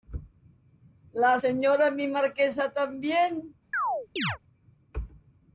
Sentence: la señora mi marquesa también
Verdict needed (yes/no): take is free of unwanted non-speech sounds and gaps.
no